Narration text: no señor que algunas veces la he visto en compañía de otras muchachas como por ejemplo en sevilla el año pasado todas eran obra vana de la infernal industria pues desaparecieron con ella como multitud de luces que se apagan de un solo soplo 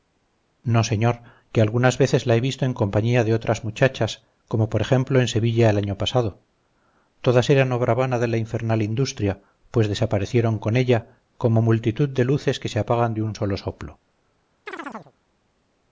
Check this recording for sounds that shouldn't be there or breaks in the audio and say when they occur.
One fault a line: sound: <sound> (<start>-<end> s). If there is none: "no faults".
sound: chirp (14.7-15.1 s)